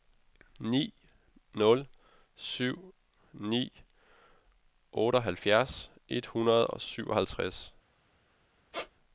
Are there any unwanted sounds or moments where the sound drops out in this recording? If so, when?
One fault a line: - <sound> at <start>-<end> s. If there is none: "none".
- squeak at 8.7-8.9 s